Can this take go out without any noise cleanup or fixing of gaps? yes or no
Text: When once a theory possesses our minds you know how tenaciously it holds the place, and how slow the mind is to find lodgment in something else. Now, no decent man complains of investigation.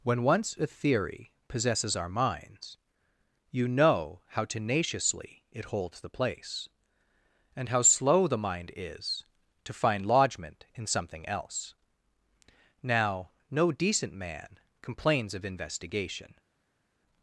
yes